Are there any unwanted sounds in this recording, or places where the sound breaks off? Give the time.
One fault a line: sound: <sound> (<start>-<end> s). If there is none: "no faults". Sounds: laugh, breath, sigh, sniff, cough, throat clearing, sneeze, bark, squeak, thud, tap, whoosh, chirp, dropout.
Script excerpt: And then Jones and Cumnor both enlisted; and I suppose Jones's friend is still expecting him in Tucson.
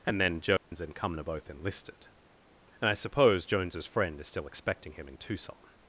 sound: dropout (0.6-0.7 s)